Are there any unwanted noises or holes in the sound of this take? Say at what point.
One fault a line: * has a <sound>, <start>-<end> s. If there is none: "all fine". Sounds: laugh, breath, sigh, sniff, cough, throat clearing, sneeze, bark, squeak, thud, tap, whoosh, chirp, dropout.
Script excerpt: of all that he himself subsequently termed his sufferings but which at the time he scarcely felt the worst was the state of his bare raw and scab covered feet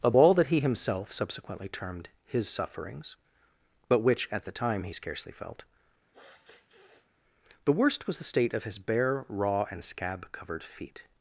* has a sniff, 6.1-7.1 s